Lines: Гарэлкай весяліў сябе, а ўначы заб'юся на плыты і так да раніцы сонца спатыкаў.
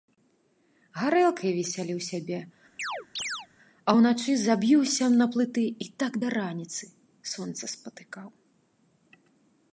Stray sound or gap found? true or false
true